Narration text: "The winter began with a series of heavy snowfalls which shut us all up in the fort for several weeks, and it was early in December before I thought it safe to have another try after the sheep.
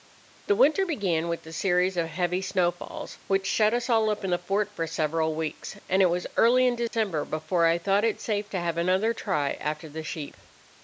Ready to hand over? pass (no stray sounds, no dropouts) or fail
fail